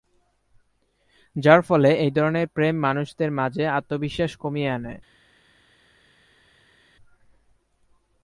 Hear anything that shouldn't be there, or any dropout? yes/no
no